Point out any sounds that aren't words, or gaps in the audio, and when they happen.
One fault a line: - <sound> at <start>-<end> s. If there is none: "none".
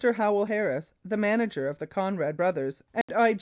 - dropout at 3.0-3.1 s